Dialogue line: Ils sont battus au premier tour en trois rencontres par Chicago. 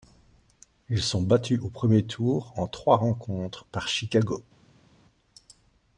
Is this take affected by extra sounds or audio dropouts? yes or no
no